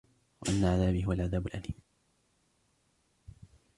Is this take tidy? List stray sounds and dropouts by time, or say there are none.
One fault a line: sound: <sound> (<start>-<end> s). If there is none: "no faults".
no faults